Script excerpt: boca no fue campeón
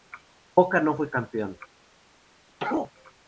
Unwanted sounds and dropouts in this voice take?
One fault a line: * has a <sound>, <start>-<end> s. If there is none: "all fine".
* has a sneeze, 2.6-2.9 s